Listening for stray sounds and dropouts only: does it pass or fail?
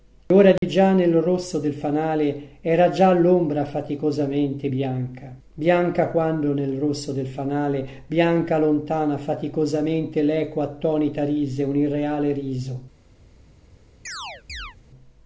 fail